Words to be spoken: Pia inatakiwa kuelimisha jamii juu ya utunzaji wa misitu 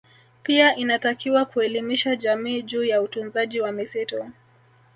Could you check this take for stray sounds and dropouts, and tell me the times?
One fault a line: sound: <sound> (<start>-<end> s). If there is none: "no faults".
no faults